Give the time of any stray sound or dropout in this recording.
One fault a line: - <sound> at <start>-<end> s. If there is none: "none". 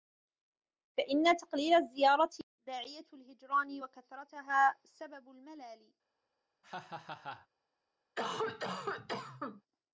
- laugh at 6.6-7.5 s
- cough at 8.2-9.6 s